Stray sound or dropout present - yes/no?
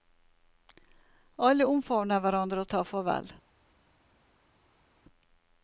no